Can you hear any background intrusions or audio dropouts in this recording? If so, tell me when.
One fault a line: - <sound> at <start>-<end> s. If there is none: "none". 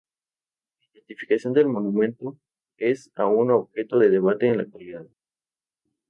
none